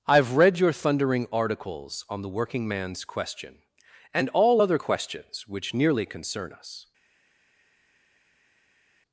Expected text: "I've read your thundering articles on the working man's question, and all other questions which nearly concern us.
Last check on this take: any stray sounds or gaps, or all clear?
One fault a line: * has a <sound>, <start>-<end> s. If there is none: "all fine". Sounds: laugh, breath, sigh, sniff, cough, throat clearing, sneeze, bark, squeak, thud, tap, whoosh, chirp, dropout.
all fine